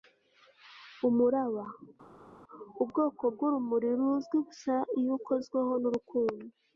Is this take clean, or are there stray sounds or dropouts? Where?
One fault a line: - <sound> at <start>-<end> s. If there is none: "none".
none